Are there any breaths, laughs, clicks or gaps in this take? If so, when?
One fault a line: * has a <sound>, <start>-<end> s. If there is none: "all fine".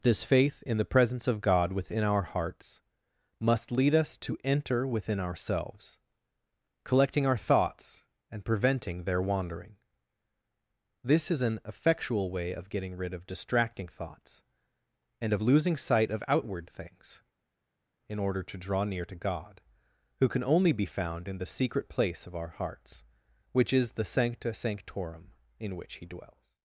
all fine